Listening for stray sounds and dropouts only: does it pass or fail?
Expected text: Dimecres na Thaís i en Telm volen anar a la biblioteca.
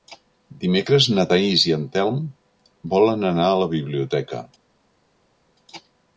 pass